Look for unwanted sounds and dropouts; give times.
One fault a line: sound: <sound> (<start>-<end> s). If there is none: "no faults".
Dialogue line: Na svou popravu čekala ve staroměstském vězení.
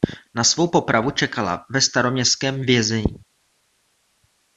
no faults